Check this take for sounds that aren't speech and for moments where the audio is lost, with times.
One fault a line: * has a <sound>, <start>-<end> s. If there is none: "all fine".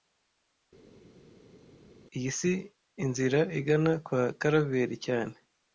all fine